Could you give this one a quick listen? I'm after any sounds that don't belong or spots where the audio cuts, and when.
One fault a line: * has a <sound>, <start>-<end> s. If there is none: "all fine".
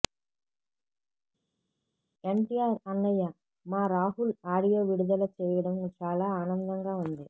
all fine